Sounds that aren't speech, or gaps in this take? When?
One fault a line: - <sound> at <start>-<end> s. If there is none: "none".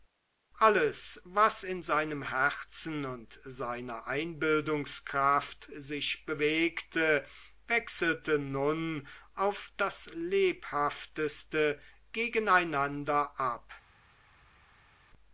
none